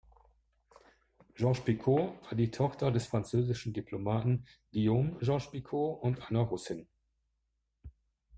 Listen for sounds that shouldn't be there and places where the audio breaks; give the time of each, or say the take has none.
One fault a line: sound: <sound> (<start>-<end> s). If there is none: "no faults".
no faults